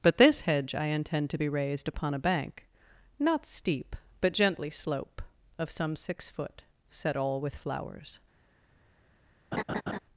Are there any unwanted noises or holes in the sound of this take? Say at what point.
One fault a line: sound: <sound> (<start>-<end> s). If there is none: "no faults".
sound: laugh (9.5-10.0 s)